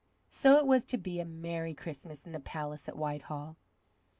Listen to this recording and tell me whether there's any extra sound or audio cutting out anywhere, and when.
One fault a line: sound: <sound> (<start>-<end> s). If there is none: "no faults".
no faults